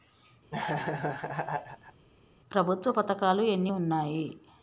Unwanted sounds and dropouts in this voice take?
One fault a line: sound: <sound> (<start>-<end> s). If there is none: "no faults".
sound: laugh (0.5-2.1 s)